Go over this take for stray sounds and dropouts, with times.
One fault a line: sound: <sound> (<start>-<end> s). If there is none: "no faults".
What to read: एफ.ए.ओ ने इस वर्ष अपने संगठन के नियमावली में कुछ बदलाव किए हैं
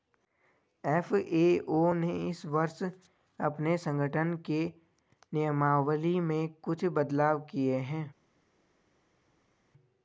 no faults